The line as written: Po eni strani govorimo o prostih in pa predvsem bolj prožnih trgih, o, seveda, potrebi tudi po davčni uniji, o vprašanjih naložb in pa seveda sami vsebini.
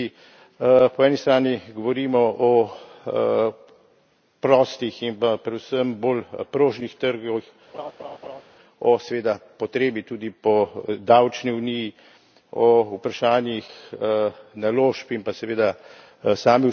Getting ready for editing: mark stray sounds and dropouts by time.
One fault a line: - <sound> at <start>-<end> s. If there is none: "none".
- laugh at 7.7-8.4 s